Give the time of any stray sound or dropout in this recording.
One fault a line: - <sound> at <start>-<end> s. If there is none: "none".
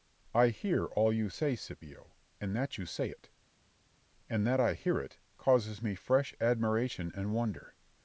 none